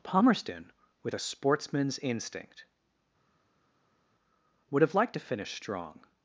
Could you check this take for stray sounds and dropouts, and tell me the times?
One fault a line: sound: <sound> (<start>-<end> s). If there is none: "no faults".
no faults